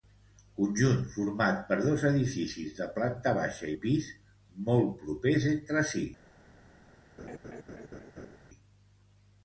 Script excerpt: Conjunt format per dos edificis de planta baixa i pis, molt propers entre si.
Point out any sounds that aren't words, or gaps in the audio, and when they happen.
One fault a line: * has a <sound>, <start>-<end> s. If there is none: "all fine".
* has a laugh, 7.2-8.4 s